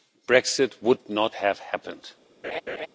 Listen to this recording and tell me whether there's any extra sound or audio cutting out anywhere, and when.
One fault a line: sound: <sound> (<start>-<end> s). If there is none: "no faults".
sound: laugh (2.4-2.9 s)